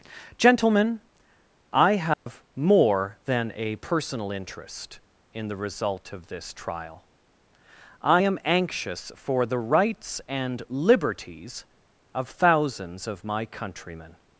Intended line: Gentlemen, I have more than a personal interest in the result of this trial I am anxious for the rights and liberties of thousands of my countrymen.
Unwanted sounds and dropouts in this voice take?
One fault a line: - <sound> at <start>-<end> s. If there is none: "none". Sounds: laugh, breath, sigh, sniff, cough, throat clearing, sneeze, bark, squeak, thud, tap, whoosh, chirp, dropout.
- dropout at 2.1-2.3 s